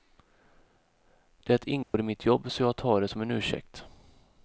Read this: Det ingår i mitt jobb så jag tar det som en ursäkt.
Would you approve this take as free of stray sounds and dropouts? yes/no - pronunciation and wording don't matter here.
no